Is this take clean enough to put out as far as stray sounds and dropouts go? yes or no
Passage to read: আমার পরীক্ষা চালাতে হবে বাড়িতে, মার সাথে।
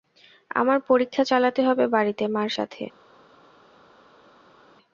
yes